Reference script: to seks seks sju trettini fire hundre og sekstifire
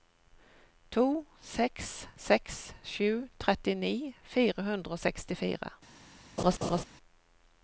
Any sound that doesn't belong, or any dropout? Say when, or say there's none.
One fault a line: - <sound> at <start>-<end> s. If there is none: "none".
- laugh at 6.4-6.8 s